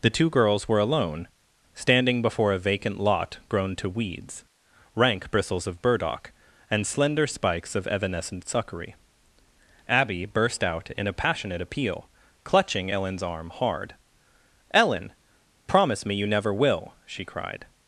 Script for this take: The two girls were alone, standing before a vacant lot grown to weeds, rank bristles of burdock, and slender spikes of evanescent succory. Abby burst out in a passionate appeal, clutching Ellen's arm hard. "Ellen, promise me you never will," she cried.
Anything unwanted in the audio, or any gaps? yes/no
no